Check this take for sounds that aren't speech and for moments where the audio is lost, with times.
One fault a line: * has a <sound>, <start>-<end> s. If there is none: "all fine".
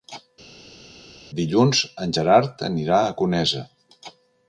all fine